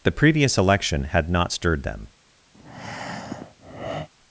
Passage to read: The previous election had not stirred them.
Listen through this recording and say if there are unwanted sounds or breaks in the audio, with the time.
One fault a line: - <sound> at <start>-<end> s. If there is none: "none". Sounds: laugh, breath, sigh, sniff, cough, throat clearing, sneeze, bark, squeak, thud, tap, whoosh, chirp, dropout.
- breath at 2.5-4.1 s